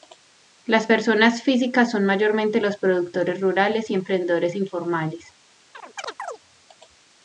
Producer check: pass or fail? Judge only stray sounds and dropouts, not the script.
fail